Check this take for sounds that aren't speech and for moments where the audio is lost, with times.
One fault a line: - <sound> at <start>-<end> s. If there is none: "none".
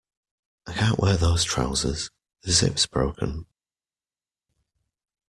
none